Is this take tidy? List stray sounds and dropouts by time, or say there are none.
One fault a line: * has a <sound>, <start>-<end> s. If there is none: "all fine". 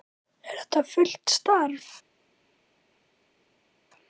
all fine